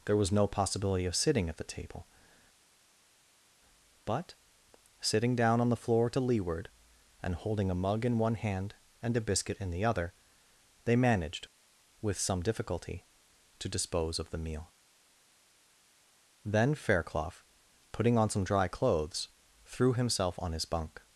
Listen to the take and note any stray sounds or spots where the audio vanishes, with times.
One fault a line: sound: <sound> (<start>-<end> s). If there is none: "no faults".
no faults